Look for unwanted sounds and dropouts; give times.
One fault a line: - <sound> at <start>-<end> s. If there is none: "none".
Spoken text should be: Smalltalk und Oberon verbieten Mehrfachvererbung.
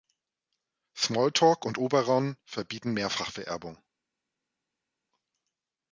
none